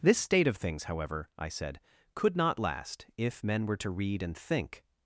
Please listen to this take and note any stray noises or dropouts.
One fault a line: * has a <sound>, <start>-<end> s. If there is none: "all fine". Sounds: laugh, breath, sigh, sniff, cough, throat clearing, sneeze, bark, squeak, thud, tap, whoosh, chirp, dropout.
all fine